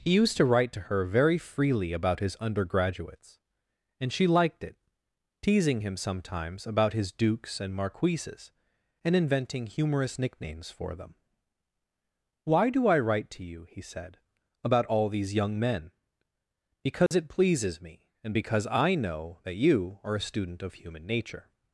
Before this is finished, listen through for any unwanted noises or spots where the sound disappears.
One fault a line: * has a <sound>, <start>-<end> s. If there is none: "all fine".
* has a dropout, 17.1-17.1 s